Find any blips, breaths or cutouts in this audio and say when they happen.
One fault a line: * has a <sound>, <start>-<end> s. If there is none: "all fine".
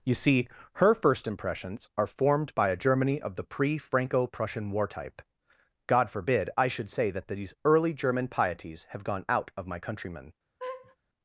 * has a laugh, 10.6-11.0 s